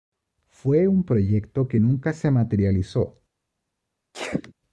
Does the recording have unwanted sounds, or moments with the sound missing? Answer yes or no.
yes